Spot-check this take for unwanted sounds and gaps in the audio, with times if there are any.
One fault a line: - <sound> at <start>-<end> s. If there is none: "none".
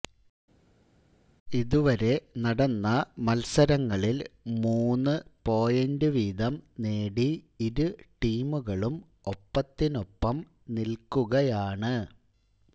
none